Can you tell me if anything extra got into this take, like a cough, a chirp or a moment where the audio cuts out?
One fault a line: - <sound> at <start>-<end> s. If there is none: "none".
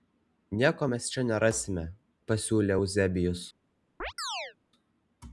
- chirp at 4.0-4.6 s